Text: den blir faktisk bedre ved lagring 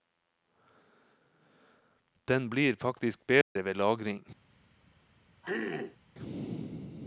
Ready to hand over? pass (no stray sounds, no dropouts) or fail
fail